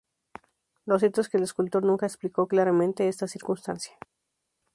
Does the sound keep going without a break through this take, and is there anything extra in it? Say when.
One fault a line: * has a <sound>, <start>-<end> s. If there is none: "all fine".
all fine